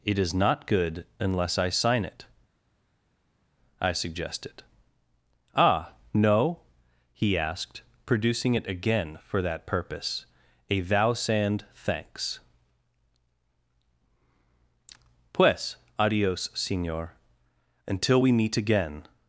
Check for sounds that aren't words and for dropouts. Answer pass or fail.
pass